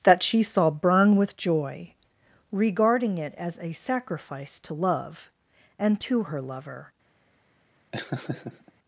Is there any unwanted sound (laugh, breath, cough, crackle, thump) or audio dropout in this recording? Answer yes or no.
yes